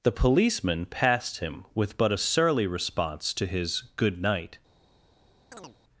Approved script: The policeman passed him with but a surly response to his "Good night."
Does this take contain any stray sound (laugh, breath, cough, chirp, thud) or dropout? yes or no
yes